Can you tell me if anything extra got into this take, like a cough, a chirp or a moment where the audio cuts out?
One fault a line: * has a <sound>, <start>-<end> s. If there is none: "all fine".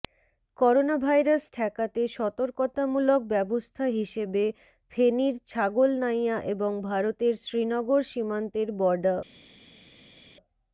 all fine